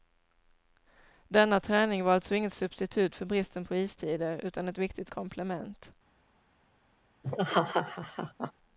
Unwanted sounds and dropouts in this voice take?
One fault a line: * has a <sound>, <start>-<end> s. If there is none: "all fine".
* has a laugh, 7.2-8.5 s